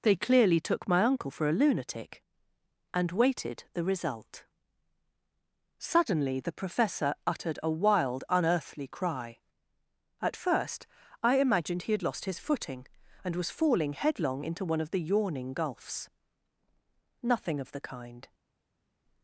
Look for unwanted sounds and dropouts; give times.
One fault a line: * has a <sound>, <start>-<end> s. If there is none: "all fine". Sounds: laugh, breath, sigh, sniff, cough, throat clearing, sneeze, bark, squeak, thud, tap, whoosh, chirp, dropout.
all fine